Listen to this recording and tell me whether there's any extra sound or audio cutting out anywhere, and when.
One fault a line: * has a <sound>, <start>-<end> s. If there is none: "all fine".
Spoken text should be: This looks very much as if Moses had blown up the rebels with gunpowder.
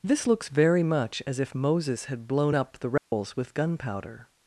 * has a dropout, 3.0-3.1 s